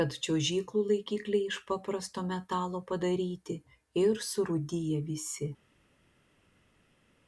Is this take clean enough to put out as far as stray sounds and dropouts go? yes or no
yes